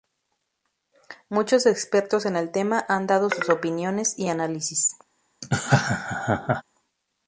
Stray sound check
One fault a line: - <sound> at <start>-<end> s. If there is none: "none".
- laugh at 5.4-6.6 s